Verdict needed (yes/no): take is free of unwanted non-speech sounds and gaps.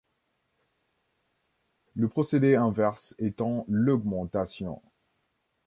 yes